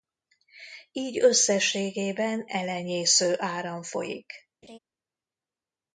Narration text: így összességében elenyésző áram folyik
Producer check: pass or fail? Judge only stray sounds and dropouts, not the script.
fail